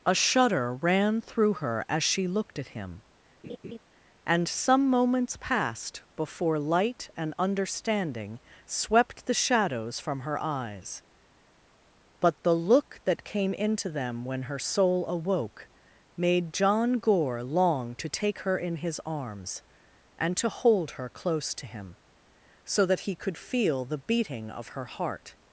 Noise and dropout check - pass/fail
fail